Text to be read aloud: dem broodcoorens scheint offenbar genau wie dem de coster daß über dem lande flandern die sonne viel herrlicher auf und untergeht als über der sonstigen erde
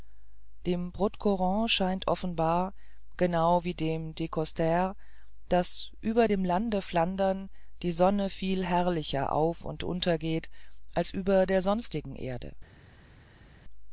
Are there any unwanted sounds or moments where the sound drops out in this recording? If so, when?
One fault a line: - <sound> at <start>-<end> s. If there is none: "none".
none